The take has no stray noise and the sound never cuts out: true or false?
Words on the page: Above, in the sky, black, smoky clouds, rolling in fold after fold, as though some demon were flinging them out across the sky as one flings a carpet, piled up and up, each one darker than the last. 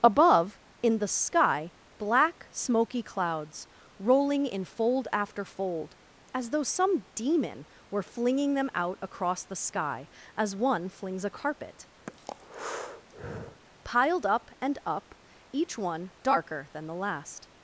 false